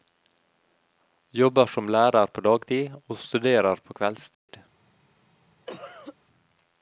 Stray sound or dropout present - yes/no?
yes